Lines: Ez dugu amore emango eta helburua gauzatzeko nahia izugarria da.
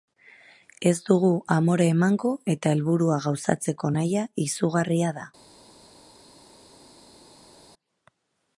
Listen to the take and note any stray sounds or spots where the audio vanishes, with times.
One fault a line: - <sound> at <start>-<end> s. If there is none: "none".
none